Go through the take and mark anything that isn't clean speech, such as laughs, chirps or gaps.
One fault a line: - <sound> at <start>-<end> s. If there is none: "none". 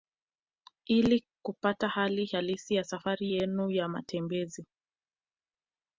none